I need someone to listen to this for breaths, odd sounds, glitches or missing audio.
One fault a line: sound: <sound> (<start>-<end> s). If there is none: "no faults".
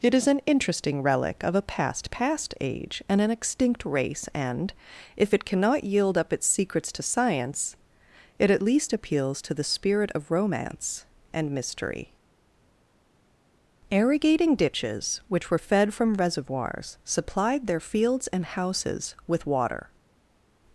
no faults